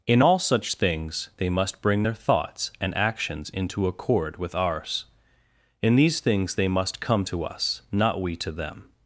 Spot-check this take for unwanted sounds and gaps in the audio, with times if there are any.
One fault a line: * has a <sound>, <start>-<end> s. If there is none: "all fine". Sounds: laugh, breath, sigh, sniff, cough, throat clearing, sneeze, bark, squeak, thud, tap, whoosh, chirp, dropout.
all fine